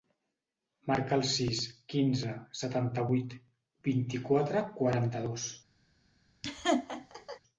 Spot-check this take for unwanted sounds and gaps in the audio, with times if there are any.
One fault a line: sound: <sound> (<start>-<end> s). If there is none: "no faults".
sound: laugh (6.4-7.4 s)